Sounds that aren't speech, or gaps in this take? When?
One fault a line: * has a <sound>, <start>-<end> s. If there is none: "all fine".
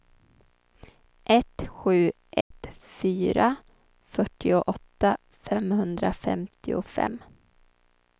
* has a dropout, 2.4-2.5 s